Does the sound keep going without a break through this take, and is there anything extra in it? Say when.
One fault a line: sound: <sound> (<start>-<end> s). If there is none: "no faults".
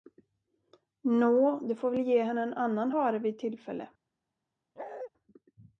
sound: bark (4.8-5.1 s)